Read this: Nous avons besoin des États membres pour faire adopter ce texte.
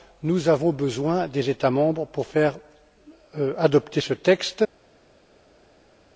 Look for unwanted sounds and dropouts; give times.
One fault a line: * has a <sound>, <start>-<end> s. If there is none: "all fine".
all fine